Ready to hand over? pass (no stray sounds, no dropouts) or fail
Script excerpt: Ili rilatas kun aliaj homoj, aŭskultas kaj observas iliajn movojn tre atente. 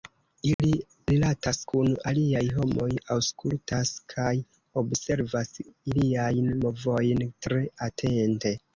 fail